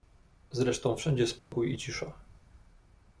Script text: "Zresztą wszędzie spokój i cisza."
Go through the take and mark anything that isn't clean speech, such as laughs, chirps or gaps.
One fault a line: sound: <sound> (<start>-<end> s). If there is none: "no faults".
sound: dropout (1.4-1.5 s)